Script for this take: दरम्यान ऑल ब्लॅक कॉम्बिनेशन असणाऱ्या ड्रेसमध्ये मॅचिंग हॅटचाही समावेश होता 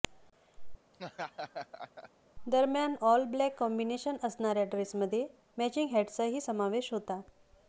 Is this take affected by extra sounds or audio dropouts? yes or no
yes